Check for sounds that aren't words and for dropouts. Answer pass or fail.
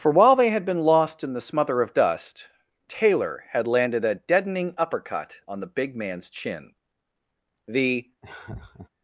fail